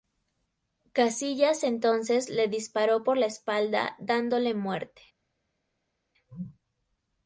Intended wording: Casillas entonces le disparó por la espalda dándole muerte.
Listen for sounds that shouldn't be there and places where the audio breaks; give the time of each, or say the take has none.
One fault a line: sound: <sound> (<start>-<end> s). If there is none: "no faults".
no faults